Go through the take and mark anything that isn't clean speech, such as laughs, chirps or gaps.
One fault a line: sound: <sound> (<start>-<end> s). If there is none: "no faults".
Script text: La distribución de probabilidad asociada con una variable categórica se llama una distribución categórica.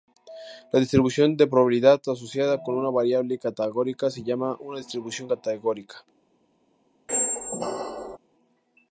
sound: squeak (7.1-8.2 s)